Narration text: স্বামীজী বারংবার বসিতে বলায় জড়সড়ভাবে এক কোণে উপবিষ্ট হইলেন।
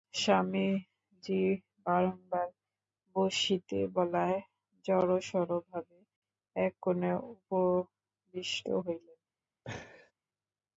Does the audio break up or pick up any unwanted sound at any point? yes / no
yes